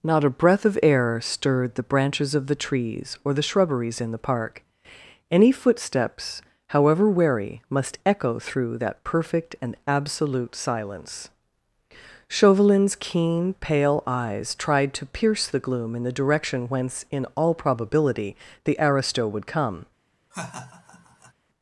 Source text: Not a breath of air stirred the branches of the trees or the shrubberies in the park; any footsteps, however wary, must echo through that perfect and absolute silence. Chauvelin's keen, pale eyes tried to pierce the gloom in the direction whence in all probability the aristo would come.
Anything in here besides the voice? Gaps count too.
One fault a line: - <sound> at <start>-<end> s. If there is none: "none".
- laugh at 20.3-21.3 s